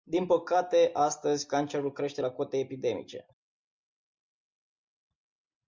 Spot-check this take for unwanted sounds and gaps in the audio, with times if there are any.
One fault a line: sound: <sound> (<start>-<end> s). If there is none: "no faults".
no faults